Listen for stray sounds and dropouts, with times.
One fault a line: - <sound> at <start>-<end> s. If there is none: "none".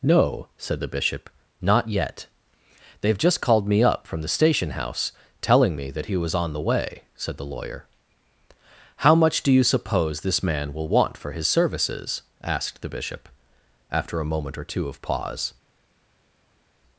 none